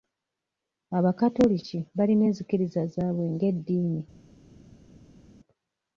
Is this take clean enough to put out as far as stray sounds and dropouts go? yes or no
yes